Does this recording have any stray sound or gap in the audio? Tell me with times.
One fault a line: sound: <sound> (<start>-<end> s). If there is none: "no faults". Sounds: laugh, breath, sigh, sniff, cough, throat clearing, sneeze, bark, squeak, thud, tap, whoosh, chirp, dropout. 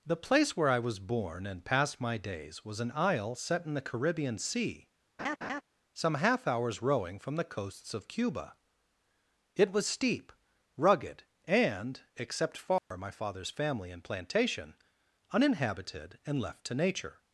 sound: laugh (5.2-5.6 s)
sound: dropout (12.8-12.9 s)